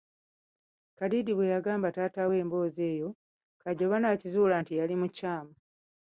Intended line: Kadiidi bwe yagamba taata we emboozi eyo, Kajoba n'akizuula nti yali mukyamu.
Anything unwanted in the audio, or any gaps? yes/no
no